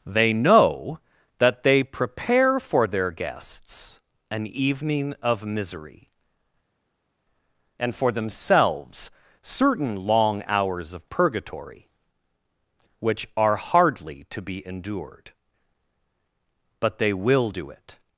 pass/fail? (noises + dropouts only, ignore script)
pass